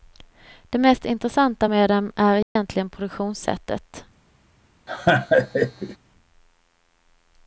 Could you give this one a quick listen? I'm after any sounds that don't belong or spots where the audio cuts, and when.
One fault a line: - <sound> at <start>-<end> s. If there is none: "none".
- dropout at 2.4-2.6 s
- laugh at 4.9-6.0 s